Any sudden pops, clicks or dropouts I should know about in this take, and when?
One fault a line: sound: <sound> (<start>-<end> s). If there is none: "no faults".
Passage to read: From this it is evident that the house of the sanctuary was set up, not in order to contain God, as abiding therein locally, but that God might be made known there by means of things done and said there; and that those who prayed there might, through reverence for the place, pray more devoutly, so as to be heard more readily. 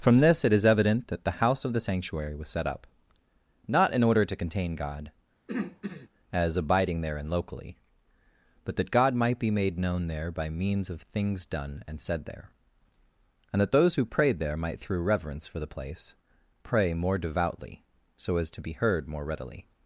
sound: throat clearing (5.5-6.1 s)